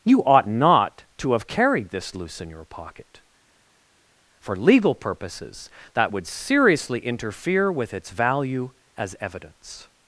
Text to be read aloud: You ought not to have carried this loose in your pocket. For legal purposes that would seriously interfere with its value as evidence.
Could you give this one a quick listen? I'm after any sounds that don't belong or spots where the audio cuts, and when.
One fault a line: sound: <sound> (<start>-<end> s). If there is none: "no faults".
no faults